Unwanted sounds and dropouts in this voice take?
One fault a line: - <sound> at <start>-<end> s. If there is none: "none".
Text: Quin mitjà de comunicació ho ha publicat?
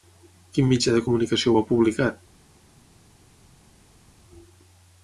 none